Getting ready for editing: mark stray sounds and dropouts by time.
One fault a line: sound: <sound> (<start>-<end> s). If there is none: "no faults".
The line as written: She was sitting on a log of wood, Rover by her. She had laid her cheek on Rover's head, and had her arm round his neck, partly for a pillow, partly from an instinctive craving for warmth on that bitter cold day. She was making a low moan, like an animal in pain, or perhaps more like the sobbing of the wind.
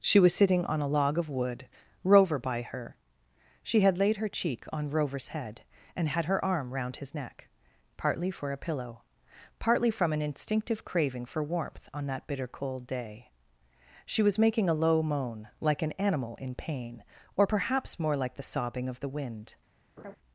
sound: laugh (20.0-20.2 s)